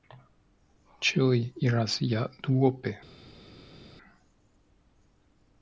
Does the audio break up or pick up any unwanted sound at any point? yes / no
no